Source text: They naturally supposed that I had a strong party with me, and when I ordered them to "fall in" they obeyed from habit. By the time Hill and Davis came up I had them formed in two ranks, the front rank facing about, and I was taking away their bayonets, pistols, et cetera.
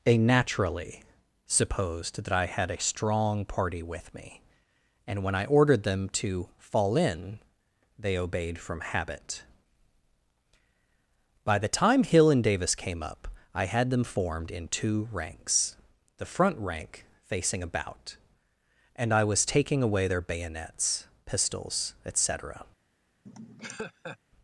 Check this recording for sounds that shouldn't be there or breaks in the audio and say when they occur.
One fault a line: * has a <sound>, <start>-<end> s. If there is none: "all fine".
* has a laugh, 23.3-24.2 s